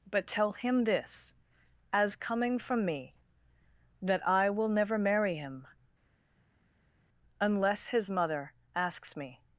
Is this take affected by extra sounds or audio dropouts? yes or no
no